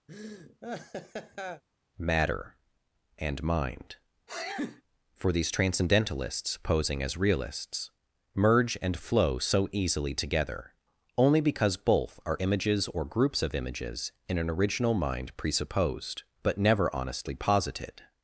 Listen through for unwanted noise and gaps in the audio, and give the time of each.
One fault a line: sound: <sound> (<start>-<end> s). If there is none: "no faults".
sound: laugh (0.1-1.6 s)
sound: sneeze (4.3-4.8 s)